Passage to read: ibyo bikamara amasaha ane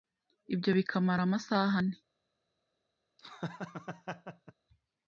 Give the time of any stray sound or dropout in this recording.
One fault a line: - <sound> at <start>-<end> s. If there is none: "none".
- laugh at 3.2-4.5 s